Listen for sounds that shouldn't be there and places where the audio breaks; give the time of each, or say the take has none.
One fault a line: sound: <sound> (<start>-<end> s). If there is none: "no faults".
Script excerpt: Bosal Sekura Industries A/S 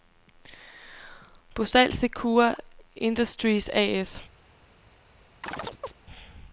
sound: chirp (5.4-5.9 s)